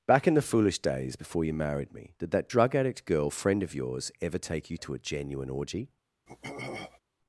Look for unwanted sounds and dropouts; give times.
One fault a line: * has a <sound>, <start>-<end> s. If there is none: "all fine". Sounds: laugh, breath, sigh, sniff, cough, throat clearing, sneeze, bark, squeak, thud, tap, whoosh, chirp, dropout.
* has a throat clearing, 6.3-7.0 s